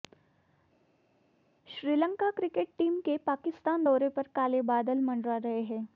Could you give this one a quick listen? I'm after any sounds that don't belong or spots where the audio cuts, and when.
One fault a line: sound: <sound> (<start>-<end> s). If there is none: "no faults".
no faults